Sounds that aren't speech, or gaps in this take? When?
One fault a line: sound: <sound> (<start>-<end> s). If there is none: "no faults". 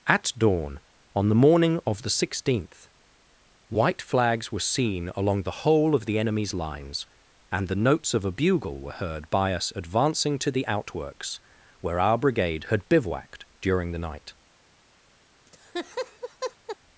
sound: laugh (15.5-16.8 s)